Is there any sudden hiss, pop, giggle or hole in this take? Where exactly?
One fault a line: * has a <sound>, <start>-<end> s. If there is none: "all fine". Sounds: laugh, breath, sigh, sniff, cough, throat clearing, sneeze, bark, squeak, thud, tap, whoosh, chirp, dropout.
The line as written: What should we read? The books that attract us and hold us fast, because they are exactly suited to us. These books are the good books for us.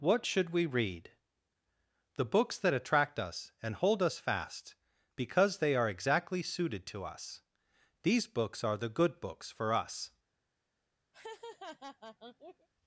* has a laugh, 11.1-12.7 s